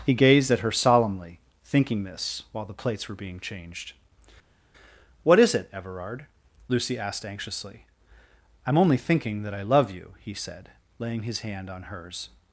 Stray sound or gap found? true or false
false